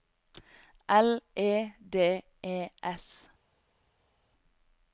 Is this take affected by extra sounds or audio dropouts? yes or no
no